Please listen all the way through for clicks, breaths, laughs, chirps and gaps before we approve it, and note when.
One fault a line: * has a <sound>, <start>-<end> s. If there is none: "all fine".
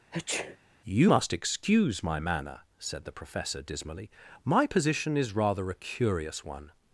* has a sneeze, 0.1-0.6 s